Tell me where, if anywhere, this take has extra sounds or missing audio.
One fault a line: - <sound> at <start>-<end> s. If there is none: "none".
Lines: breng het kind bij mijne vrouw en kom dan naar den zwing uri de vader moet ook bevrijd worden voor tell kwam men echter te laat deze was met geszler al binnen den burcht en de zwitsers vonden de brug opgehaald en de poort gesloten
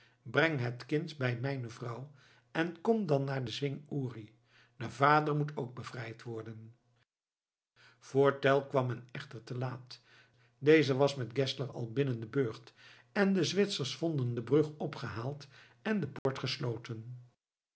- dropout at 16.2-16.3 s